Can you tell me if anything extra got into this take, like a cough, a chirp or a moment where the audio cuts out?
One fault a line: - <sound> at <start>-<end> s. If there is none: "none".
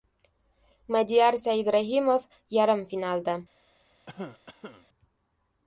- cough at 4.1-4.9 s